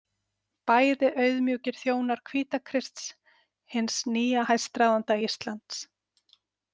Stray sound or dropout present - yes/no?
no